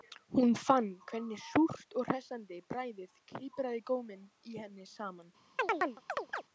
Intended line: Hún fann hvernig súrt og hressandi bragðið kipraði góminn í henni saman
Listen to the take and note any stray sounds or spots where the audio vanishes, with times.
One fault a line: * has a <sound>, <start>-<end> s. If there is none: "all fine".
* has a chirp, 5.6-6.4 s